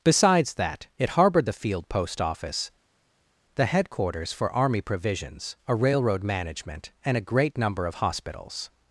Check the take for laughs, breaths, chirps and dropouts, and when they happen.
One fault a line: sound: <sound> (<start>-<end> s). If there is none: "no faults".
no faults